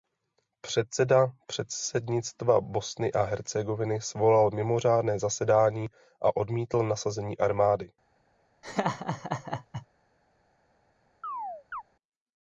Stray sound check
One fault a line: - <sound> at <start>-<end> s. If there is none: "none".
- laugh at 8.6-9.9 s
- chirp at 11.2-11.8 s